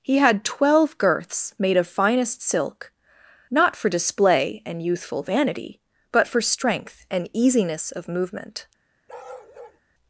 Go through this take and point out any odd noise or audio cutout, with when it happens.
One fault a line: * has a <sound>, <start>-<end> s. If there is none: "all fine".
* has a bark, 9.1-9.8 s